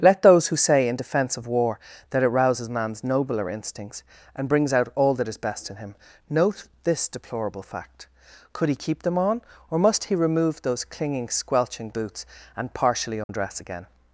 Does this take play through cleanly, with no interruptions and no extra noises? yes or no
no